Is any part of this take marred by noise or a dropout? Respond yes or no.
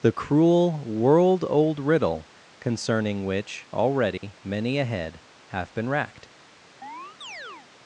yes